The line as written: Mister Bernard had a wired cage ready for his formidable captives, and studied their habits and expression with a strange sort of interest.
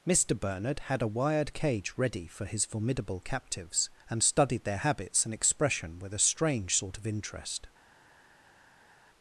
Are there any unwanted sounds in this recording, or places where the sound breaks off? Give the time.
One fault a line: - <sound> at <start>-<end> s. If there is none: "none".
none